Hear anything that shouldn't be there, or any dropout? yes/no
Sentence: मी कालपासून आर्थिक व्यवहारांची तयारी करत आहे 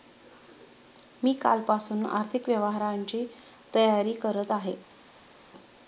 no